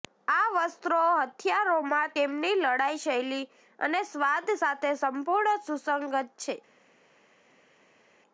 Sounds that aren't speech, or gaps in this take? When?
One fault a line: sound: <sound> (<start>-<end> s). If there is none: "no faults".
no faults